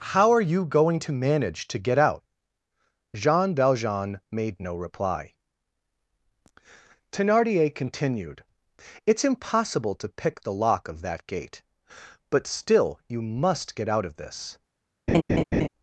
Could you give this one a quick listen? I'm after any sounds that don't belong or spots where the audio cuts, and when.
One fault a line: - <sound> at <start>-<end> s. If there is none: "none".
- laugh at 15.1-15.7 s